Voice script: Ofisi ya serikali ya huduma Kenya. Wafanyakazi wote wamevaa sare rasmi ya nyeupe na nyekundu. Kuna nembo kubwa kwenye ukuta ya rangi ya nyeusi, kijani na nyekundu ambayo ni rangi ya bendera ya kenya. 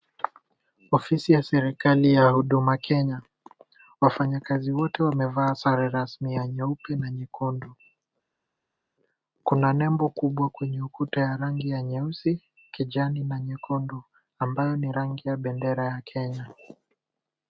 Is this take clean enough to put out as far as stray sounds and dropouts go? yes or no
yes